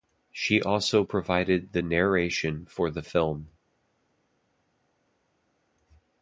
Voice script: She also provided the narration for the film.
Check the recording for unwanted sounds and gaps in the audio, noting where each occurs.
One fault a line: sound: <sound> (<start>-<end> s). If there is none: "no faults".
no faults